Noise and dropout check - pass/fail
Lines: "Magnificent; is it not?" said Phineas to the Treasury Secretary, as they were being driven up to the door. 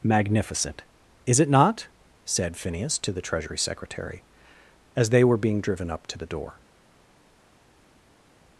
pass